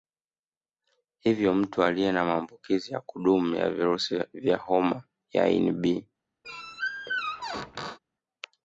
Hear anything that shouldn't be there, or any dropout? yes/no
yes